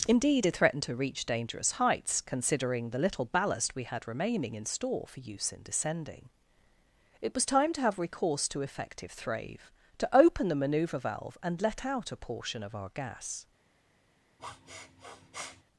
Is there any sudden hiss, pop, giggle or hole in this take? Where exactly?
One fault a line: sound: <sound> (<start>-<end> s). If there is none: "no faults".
sound: sniff (14.4-15.6 s)